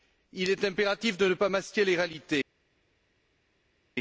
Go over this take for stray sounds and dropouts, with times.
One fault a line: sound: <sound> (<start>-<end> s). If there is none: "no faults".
no faults